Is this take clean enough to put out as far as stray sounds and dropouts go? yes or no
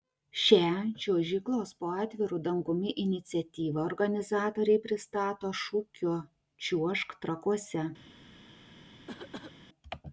no